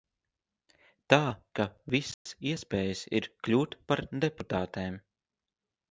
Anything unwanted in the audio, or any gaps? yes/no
yes